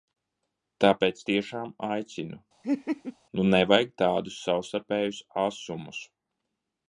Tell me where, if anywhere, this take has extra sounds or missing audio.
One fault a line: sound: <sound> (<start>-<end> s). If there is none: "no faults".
sound: laugh (2.6-3.2 s)